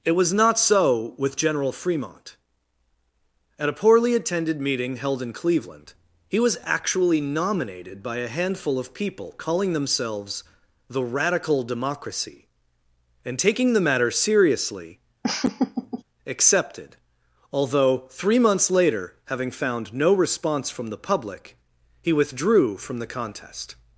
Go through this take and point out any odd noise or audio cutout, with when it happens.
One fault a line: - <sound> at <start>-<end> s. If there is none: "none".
- laugh at 15.2-16.0 s